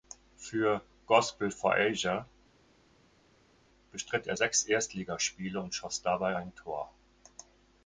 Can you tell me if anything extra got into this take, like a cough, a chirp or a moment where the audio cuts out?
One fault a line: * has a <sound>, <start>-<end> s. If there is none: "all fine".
all fine